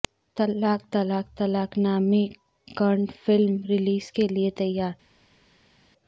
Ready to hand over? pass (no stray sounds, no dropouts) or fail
pass